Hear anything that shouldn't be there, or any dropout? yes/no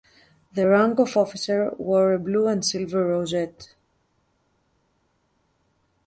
no